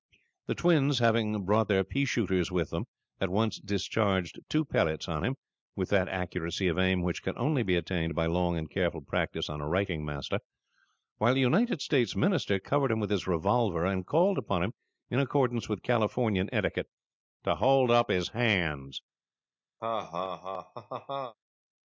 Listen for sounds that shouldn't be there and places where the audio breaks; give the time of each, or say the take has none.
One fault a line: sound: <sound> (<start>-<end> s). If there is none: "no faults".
sound: laugh (19.8-21.3 s)